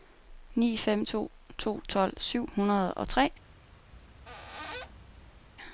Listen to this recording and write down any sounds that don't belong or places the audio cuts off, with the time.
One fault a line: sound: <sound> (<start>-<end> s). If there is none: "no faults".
sound: squeak (3.9-5.5 s)